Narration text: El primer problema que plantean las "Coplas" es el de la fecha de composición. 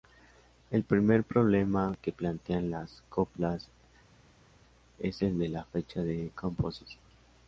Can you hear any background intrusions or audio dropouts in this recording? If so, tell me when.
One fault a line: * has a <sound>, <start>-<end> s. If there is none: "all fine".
all fine